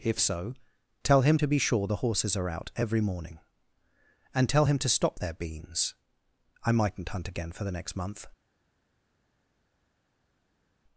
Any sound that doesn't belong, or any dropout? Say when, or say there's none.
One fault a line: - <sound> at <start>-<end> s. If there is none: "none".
none